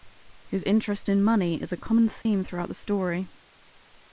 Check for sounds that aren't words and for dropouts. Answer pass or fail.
fail